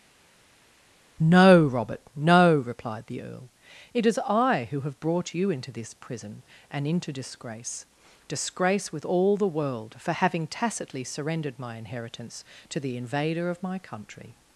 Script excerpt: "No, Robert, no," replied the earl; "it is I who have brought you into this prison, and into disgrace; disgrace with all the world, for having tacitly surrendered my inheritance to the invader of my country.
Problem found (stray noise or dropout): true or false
false